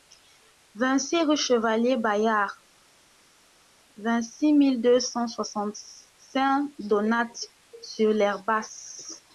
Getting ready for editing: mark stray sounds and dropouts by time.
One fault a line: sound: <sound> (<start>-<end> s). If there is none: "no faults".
no faults